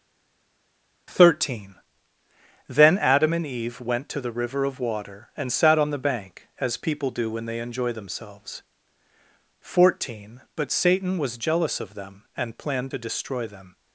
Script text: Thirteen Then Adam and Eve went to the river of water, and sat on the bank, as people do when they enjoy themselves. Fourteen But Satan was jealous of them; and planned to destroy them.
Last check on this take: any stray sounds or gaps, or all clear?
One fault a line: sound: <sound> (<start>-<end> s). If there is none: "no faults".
no faults